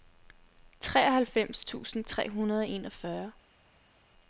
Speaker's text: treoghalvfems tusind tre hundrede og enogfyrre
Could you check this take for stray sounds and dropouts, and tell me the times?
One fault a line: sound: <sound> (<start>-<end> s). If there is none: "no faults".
no faults